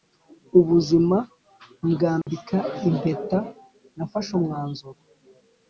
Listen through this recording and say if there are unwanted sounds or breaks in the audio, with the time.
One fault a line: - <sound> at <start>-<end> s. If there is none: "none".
- dropout at 2.2-2.3 s